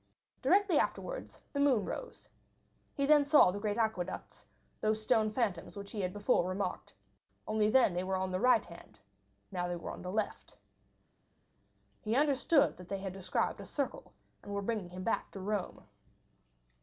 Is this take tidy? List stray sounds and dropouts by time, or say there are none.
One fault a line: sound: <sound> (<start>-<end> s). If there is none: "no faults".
no faults